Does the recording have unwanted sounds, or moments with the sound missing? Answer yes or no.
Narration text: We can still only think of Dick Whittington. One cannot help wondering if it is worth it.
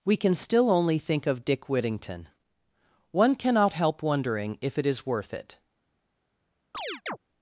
yes